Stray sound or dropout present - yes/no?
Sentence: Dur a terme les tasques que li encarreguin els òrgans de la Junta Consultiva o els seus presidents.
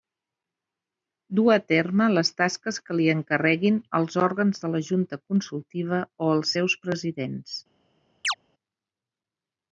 yes